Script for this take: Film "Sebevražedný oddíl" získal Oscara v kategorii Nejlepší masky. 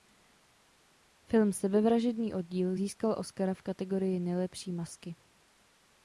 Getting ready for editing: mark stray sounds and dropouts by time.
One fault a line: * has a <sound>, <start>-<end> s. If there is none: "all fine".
all fine